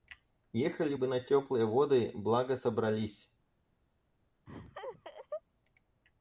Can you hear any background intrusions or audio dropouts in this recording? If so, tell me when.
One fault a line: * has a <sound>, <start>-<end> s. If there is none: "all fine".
* has a laugh, 4.5-5.4 s